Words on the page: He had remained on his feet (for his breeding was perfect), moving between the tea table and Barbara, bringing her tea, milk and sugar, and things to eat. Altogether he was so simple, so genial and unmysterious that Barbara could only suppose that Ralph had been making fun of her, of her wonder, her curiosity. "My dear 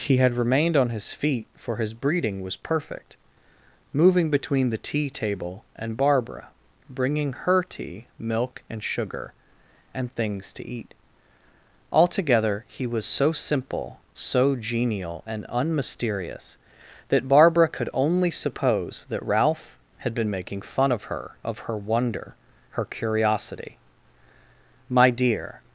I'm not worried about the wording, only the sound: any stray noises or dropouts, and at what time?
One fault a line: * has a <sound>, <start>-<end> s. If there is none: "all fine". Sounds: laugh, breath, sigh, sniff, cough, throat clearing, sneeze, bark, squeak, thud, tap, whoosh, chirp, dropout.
all fine